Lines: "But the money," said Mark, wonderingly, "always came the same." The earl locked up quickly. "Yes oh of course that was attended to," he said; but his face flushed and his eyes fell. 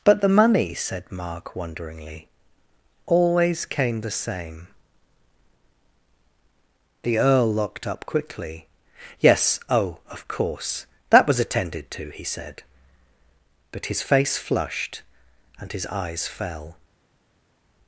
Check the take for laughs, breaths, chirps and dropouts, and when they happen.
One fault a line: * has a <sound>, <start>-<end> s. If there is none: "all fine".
all fine